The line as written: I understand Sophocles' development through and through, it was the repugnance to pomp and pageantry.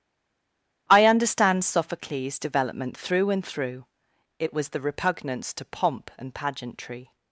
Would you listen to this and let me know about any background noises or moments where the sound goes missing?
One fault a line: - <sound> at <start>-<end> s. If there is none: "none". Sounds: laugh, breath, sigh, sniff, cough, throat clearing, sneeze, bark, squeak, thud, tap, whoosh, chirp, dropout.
none